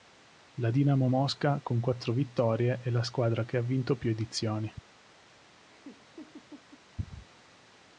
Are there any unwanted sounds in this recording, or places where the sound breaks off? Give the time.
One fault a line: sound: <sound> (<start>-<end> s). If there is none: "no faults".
sound: laugh (5.7-6.8 s)